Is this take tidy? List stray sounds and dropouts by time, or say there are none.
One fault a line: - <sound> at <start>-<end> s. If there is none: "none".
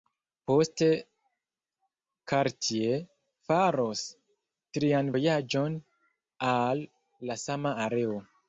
none